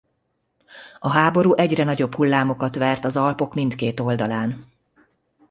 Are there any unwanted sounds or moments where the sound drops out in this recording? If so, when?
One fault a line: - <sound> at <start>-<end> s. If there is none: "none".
none